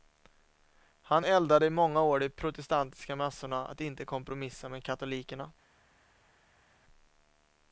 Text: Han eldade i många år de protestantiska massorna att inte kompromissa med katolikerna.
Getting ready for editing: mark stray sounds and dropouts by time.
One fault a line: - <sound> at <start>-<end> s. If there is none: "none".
none